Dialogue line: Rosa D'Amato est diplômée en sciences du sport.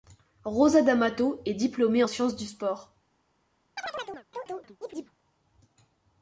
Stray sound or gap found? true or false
true